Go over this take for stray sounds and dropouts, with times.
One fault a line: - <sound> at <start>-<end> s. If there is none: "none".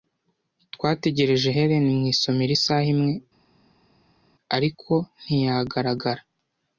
none